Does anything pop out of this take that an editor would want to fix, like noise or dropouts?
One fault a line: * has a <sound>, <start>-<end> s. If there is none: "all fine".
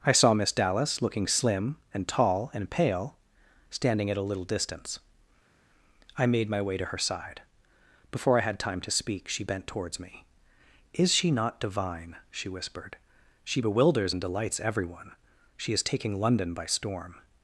all fine